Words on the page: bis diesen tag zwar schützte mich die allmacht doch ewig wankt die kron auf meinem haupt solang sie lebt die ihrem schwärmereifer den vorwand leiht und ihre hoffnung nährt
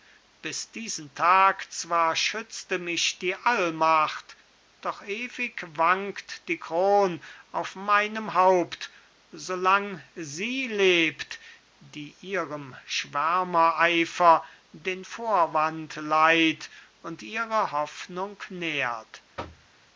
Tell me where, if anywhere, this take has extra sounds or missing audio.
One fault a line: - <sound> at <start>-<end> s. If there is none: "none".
- thud at 19.4-19.7 s